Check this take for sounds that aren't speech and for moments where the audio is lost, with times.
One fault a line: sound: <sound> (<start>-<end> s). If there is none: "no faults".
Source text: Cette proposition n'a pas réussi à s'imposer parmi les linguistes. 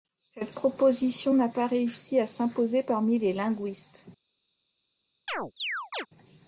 sound: chirp (5.3-6.1 s)